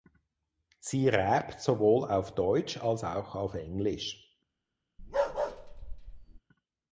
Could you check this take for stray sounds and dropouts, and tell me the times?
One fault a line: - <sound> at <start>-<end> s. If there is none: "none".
- bark at 5.0-6.4 s